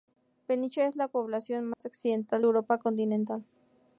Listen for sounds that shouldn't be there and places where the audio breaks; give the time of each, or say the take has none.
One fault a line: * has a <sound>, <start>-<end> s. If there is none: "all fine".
* has a dropout, 1.7-1.8 s